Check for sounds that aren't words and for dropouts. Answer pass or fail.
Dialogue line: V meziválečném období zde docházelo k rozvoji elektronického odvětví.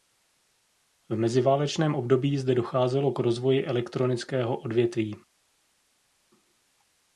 pass